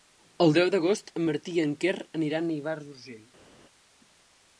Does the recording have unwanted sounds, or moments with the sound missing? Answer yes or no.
no